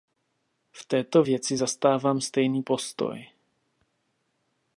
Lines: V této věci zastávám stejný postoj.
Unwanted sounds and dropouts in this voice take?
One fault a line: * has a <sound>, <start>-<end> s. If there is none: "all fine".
all fine